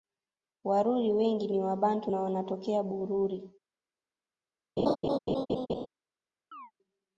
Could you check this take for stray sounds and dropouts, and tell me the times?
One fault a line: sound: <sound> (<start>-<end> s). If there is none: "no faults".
sound: laugh (4.8-5.9 s)
sound: chirp (6.5-6.7 s)